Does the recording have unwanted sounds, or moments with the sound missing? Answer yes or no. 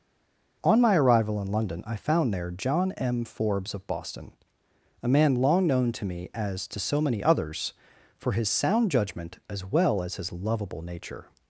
no